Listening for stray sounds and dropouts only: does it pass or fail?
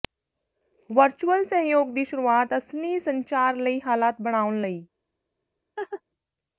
fail